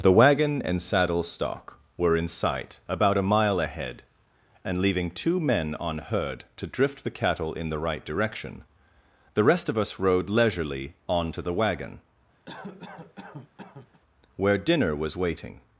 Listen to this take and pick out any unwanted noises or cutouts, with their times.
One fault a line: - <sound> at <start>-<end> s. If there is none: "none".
- cough at 12.5-14.0 s